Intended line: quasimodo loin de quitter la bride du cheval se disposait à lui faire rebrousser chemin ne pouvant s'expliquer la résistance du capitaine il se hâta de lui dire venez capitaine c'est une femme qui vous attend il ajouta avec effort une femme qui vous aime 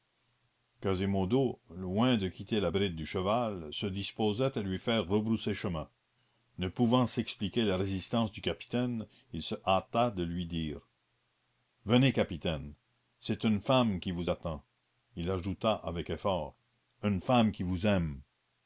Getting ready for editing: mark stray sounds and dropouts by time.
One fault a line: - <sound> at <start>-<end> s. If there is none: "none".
none